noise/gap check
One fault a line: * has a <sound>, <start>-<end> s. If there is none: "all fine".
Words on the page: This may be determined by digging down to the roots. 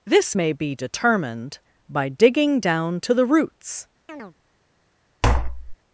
* has a chirp, 4.1-4.3 s
* has a tap, 5.2-5.8 s